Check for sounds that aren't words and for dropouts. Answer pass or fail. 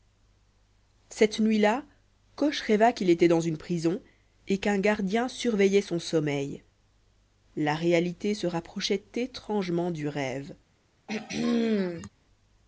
fail